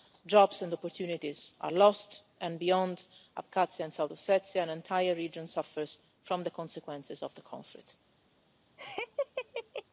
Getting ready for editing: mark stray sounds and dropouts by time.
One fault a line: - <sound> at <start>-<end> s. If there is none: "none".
- laugh at 8.8-9.8 s